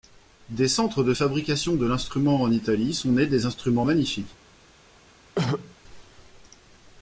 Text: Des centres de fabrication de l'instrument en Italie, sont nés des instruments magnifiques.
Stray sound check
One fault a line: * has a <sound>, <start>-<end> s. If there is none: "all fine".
* has a throat clearing, 5.4-5.8 s